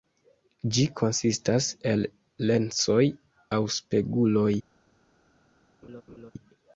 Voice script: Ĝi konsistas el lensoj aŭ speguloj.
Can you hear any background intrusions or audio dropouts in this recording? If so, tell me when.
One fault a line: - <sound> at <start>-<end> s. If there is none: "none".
- laugh at 5.8-6.3 s